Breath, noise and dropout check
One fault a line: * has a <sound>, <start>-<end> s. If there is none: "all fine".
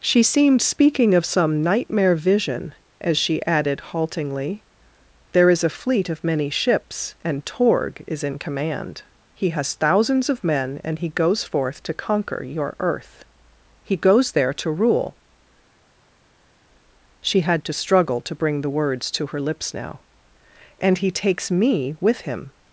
all fine